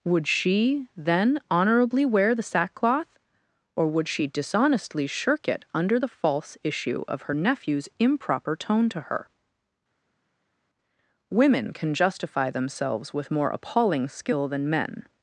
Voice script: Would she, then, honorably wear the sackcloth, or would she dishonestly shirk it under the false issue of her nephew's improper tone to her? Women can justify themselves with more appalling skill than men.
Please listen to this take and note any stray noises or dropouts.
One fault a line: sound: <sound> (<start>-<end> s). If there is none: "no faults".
no faults